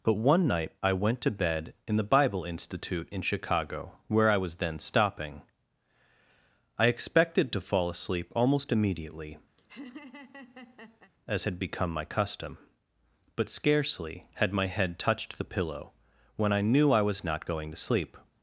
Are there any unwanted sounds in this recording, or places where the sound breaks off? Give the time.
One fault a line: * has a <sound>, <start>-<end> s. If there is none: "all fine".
* has a laugh, 9.6-11.1 s